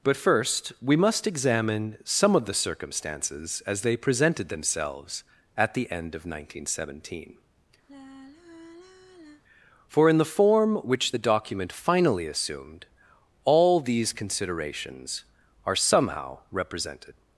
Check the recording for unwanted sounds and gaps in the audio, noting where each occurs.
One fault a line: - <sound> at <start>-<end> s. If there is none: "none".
- sigh at 7.9-9.4 s